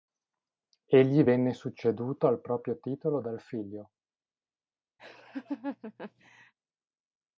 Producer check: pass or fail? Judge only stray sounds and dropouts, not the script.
fail